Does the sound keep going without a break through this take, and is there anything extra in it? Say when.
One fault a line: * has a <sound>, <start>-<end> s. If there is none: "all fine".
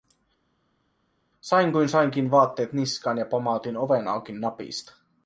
all fine